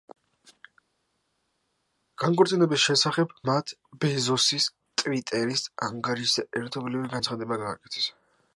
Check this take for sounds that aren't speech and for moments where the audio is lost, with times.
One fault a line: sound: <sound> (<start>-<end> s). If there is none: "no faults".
no faults